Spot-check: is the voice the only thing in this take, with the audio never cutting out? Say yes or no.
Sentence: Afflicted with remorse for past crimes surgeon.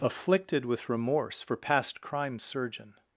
yes